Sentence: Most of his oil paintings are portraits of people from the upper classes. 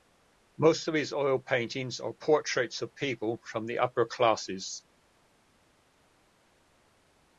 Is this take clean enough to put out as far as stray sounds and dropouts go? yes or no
yes